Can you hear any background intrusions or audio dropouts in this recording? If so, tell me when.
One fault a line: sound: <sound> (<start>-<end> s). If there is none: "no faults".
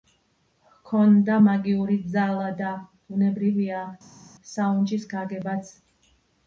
no faults